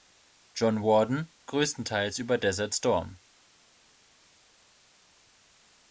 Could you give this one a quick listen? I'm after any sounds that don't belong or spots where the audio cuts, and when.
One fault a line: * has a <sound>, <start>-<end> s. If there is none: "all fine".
all fine